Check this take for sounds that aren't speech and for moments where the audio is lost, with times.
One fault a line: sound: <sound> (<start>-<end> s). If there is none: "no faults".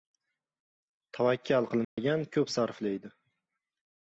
sound: dropout (1.8-2.0 s)